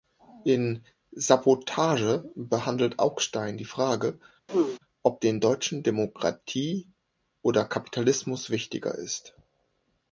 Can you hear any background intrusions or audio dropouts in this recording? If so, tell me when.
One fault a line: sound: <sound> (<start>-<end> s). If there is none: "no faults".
sound: throat clearing (4.5-4.8 s)